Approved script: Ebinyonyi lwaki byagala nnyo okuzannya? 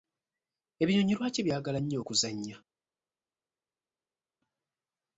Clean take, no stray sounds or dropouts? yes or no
yes